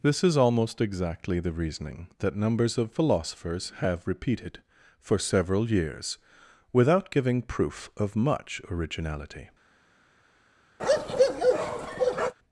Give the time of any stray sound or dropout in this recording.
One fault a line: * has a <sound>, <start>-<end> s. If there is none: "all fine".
* has a bark, 10.8-12.3 s